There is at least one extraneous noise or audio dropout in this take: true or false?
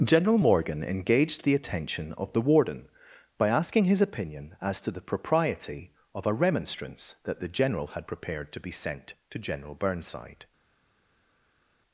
false